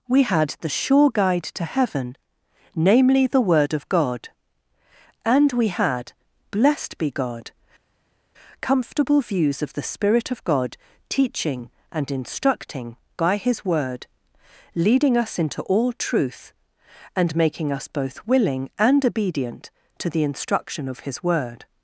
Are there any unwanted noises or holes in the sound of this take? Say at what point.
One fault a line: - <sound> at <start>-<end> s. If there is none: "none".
none